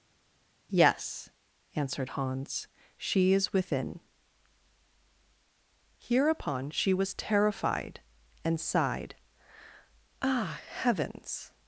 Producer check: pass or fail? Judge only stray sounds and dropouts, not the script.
pass